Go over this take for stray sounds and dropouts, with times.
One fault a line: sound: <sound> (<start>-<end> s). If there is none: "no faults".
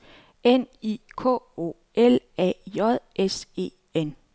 no faults